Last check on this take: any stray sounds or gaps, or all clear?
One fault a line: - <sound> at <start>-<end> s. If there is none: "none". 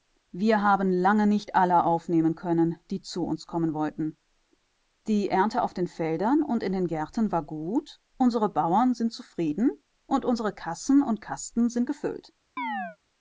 - chirp at 12.6-13.0 s